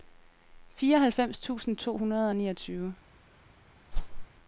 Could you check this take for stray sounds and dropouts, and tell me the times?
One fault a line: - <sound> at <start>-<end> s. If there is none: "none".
- whoosh at 3.9-4.3 s